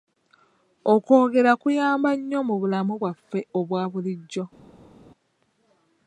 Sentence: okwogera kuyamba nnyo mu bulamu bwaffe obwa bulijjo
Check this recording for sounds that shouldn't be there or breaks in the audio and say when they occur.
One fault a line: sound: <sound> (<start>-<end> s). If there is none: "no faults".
no faults